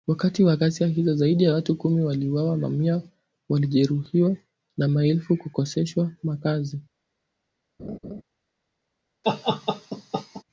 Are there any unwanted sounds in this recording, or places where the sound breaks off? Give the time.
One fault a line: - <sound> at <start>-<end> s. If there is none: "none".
- laugh at 7.8-8.2 s
- laugh at 9.2-10.4 s